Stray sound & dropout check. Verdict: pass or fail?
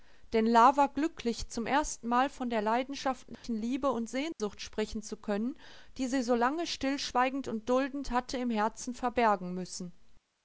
fail